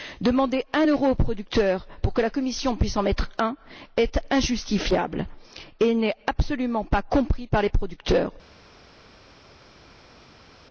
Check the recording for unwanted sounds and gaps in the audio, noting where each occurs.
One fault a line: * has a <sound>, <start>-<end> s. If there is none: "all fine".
all fine